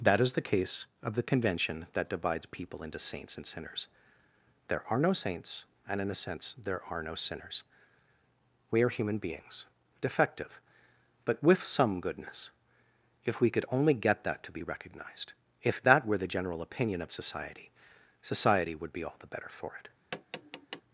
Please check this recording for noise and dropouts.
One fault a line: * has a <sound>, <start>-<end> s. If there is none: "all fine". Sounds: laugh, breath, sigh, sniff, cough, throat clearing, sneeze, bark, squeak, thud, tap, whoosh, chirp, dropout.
* has a tap, 20.1-20.8 s